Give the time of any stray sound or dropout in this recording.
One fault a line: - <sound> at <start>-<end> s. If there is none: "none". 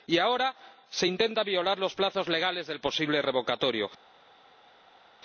none